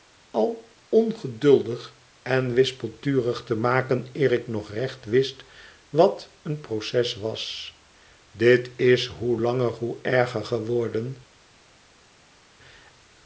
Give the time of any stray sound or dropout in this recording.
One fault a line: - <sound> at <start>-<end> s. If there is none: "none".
none